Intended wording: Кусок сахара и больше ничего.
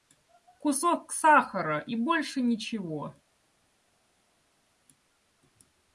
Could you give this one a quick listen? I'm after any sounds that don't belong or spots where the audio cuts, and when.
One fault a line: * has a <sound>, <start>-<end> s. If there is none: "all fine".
all fine